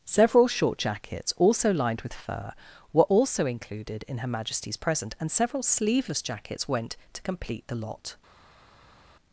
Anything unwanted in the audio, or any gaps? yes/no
no